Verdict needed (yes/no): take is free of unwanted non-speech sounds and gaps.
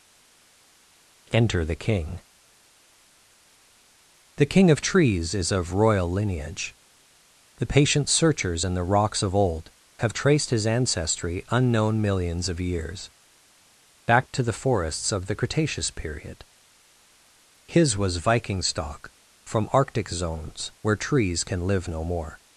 yes